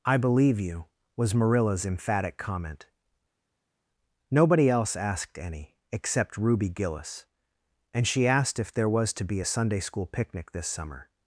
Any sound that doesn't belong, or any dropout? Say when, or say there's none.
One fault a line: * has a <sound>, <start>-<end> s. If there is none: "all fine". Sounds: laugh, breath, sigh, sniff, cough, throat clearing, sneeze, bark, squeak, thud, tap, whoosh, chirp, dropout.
all fine